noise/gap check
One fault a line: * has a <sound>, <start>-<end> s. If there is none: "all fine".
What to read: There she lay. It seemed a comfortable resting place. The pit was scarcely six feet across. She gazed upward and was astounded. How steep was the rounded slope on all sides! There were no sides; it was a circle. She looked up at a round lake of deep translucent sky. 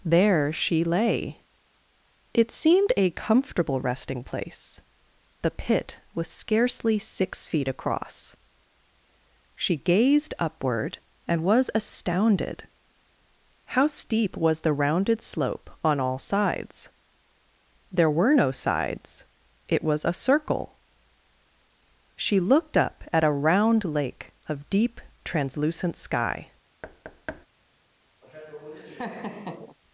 * has a thud, 26.8-27.5 s
* has a laugh, 28.2-29.8 s